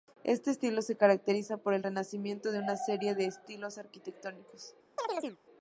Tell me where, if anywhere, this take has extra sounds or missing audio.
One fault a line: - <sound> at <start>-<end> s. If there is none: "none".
- chirp at 5.0-5.4 s